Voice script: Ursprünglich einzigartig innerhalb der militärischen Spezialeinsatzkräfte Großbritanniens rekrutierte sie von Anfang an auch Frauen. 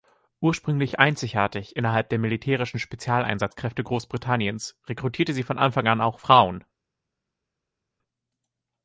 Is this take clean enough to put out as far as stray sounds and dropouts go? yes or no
yes